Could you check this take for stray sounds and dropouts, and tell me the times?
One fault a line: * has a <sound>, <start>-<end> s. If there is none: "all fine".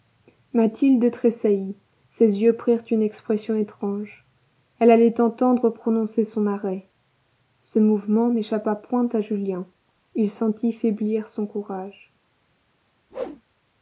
* has a whoosh, 13.1-13.4 s